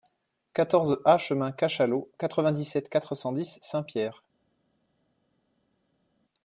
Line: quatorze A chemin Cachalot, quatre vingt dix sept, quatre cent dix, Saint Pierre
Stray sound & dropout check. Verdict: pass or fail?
pass